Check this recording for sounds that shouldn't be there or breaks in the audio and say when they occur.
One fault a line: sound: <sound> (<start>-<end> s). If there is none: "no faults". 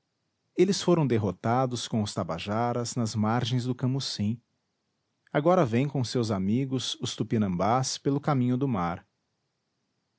no faults